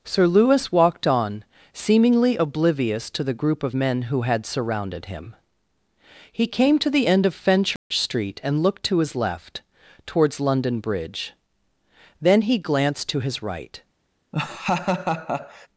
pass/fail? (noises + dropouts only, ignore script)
fail